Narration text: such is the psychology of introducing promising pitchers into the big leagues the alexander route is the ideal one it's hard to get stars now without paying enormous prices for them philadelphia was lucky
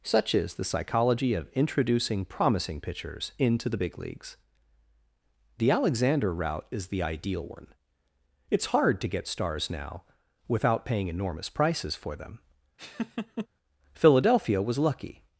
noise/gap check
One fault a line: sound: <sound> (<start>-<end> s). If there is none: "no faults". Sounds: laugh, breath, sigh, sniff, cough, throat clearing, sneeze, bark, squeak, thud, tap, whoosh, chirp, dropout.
sound: laugh (12.8-13.5 s)